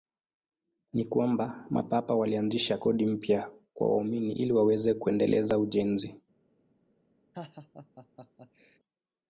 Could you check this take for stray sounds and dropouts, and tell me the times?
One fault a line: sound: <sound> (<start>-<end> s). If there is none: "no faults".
sound: laugh (7.3-8.8 s)